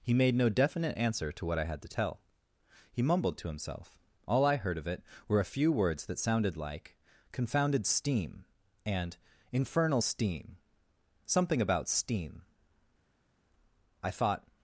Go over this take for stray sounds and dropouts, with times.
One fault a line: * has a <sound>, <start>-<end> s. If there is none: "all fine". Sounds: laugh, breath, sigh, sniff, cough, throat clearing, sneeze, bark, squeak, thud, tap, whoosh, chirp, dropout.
all fine